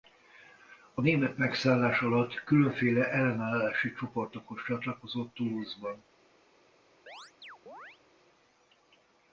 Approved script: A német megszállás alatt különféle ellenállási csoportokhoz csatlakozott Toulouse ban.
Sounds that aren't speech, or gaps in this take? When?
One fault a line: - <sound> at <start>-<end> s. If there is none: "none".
- chirp at 7.1-8.0 s